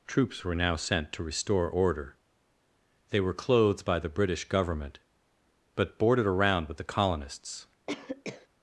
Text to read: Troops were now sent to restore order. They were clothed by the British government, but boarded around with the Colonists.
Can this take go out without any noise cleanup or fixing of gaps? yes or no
no